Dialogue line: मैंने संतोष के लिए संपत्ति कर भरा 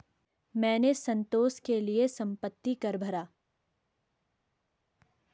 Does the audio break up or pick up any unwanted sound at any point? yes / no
no